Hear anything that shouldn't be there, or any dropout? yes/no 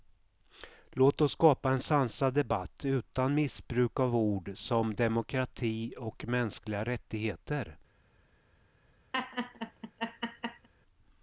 yes